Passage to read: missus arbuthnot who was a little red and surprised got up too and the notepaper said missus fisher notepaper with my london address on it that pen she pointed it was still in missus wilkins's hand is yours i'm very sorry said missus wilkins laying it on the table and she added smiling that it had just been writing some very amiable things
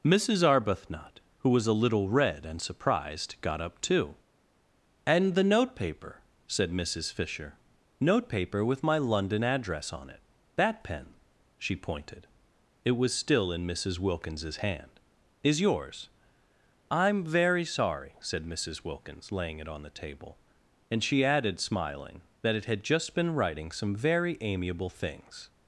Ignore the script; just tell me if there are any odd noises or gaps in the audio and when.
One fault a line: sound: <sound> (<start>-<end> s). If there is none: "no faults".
no faults